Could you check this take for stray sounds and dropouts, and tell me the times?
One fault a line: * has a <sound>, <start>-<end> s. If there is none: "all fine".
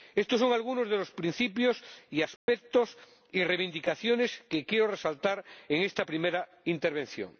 * has a dropout, 2.4-2.5 s